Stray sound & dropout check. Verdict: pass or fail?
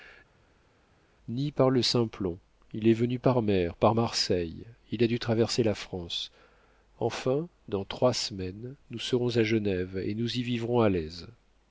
pass